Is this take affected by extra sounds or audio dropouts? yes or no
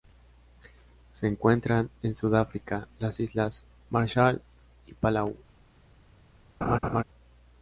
yes